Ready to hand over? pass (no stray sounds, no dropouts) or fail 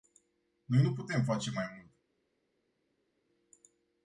pass